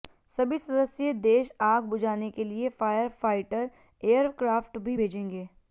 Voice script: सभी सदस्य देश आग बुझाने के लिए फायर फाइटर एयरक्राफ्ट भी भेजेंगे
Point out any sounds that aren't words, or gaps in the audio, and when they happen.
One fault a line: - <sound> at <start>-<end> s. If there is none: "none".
none